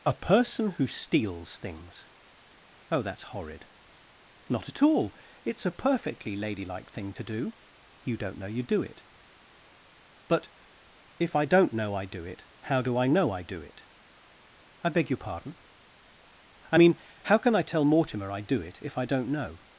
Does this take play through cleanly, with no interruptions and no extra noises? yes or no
yes